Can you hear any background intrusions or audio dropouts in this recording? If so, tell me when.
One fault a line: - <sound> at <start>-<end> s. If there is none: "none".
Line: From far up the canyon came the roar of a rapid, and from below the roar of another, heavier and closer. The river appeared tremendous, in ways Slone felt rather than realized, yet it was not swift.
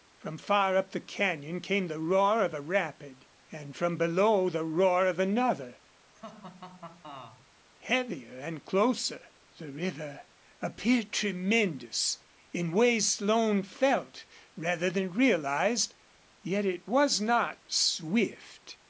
- laugh at 6.1-7.5 s